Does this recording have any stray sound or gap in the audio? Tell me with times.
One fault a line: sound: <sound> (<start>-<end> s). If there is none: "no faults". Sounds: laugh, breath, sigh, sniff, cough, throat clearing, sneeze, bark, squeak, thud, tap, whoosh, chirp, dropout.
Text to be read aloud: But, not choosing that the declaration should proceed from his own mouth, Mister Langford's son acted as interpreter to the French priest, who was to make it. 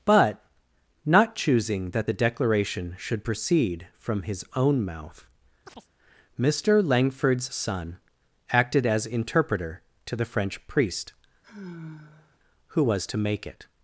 sound: chirp (5.7-5.9 s)
sound: sigh (11.4-12.4 s)